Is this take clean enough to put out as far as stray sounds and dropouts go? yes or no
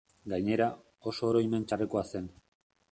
yes